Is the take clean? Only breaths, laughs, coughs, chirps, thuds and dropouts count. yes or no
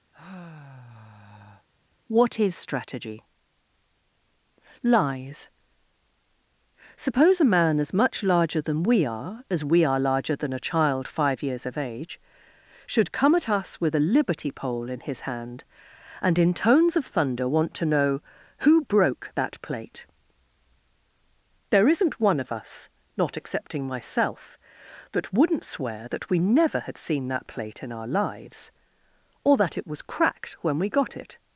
no